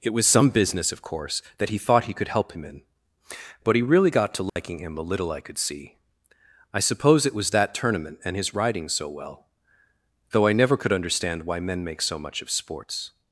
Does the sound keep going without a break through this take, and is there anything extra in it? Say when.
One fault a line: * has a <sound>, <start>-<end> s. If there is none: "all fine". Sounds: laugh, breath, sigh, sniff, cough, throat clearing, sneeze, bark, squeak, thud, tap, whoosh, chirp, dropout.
* has a dropout, 4.5-4.6 s